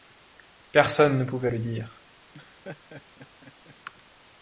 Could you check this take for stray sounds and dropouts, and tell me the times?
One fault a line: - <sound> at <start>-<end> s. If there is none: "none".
- laugh at 2.3-3.8 s